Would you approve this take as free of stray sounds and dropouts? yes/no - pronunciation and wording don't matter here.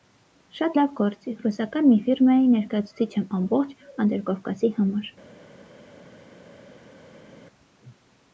yes